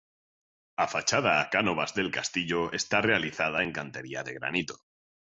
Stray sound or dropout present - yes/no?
no